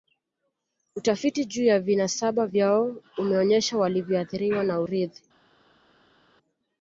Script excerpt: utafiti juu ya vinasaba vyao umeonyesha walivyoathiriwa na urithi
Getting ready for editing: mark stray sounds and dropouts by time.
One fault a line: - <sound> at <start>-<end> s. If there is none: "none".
none